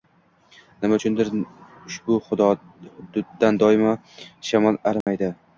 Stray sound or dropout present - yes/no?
yes